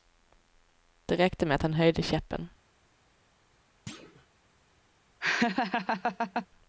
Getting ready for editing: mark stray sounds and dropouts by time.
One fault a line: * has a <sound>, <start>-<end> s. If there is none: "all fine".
* has a thud, 3.9-4.3 s
* has a laugh, 5.2-6.5 s